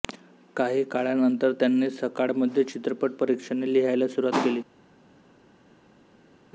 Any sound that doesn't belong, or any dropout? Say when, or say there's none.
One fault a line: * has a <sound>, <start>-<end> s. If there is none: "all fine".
all fine